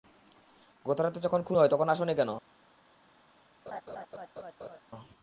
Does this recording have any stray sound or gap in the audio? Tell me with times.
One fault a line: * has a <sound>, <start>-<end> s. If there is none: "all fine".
* has a laugh, 3.7-4.8 s